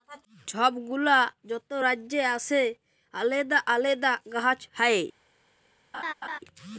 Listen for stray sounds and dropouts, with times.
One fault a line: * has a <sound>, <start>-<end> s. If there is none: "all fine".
* has a laugh, 5.9-6.4 s